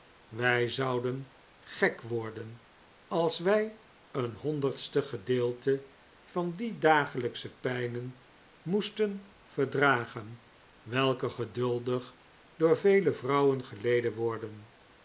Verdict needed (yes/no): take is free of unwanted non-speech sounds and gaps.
yes